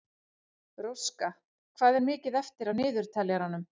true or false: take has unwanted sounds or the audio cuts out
false